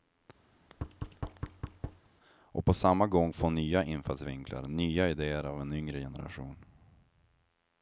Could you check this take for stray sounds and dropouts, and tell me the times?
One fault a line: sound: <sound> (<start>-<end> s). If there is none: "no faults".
sound: thud (0.5-2.1 s)